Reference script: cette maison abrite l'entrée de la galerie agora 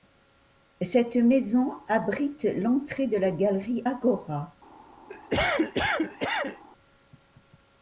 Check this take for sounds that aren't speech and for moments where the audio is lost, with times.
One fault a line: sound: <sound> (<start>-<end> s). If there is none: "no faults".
sound: cough (5.1-6.6 s)